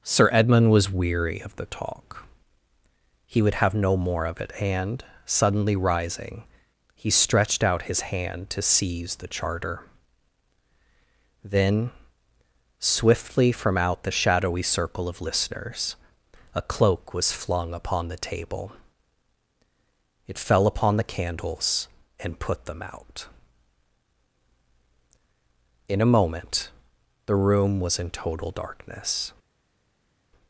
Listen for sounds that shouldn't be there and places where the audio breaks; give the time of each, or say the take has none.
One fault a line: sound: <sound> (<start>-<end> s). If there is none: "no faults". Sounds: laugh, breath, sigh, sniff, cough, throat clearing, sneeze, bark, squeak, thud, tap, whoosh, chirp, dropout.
no faults